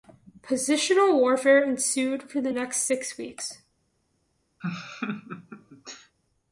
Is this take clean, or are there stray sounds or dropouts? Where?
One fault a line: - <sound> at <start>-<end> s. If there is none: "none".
- laugh at 4.6-6.2 s